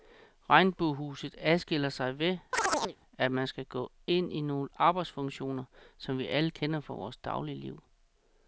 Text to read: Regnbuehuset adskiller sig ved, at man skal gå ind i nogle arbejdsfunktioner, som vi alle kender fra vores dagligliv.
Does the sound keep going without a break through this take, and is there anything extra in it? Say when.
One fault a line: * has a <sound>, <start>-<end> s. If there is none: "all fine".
* has a chirp, 2.5-3.0 s